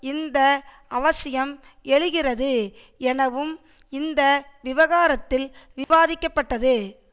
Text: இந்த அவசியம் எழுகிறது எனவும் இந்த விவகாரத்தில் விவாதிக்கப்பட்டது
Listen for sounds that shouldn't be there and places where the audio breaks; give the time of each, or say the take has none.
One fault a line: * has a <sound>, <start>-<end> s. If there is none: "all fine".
* has a dropout, 5.8-5.9 s